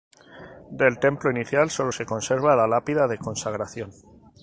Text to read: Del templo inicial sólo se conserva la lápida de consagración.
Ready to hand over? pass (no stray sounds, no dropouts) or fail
pass